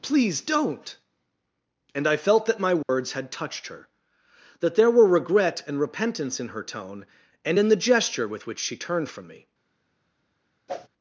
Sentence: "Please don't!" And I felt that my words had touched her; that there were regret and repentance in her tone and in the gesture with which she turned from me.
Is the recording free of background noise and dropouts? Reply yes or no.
no